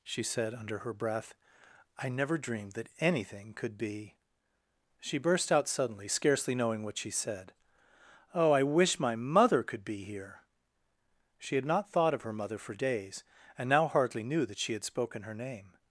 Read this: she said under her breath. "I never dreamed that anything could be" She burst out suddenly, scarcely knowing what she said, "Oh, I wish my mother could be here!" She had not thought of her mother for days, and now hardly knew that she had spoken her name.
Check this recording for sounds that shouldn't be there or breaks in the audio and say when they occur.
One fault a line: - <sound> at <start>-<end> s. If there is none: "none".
none